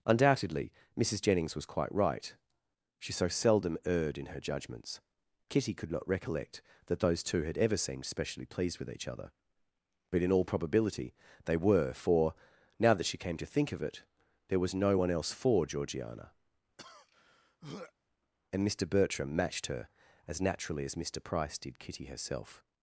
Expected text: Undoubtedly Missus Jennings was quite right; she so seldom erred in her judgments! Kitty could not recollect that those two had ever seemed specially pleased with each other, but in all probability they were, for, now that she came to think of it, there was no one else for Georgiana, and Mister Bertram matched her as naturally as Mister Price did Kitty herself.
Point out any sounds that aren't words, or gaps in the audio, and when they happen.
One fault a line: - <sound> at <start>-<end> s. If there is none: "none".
- throat clearing at 16.8-17.9 s